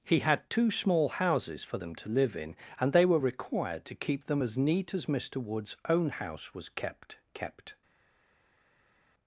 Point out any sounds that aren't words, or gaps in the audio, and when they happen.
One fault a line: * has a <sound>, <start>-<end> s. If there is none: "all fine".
all fine